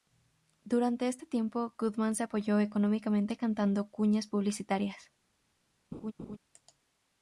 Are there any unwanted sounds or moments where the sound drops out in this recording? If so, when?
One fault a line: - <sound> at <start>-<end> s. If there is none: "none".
- laugh at 5.9-6.4 s